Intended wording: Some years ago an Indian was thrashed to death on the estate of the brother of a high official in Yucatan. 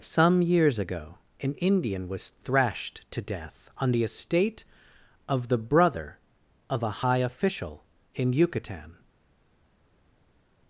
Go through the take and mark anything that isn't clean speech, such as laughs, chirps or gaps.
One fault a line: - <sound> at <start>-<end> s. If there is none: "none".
none